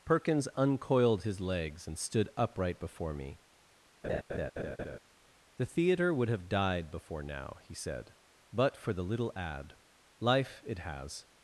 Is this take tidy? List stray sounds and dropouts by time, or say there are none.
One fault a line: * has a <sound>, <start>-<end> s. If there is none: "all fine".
* has a laugh, 4.0-5.0 s